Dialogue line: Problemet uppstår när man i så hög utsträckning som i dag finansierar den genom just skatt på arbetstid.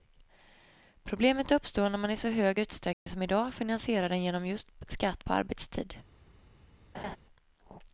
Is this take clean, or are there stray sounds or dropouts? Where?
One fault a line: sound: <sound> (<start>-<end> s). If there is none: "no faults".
sound: dropout (2.9-3.1 s)
sound: laugh (6.9-7.2 s)